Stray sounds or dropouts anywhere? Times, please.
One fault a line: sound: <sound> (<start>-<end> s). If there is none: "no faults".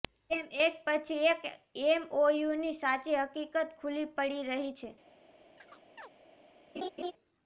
sound: chirp (5.6-6.1 s)
sound: laugh (6.8-7.1 s)